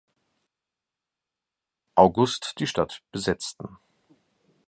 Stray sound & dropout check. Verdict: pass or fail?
pass